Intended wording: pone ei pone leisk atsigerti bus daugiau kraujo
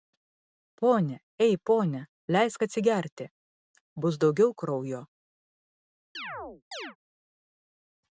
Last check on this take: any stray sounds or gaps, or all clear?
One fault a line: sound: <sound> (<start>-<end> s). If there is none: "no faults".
sound: chirp (6.1-7.0 s)